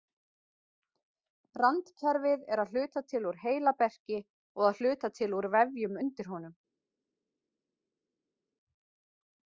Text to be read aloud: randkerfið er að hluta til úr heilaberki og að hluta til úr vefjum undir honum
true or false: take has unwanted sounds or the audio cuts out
false